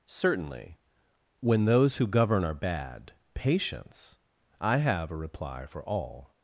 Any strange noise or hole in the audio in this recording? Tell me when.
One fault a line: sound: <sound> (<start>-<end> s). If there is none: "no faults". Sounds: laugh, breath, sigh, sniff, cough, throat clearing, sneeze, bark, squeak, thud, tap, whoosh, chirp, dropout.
no faults